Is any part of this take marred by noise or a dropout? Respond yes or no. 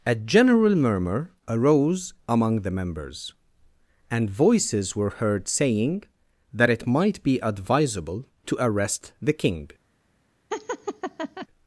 yes